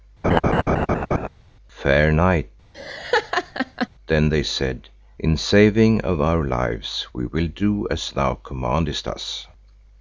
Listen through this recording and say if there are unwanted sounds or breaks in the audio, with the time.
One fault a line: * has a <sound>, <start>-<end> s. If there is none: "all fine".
* has a laugh, 0.2-1.3 s
* has a laugh, 2.7-3.9 s